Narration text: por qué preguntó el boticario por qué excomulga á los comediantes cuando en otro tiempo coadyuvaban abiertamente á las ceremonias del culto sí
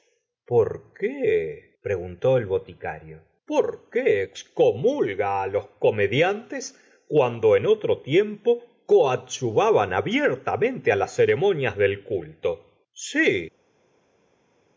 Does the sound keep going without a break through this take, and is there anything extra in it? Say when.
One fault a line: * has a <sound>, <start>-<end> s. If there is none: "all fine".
all fine